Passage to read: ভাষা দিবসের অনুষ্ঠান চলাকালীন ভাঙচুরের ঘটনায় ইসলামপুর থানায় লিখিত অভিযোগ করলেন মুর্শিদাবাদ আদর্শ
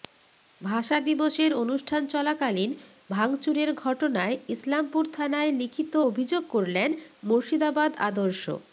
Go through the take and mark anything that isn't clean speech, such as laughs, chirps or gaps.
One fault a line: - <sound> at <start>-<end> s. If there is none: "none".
none